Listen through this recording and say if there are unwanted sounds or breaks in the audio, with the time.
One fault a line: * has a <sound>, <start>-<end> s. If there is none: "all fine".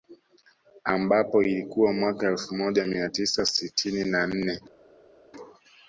all fine